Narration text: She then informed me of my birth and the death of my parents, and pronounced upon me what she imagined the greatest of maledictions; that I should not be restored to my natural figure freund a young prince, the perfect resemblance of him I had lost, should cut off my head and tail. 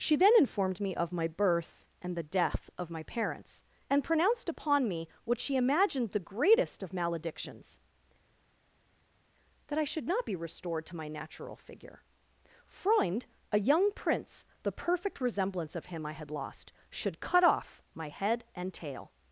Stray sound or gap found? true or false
false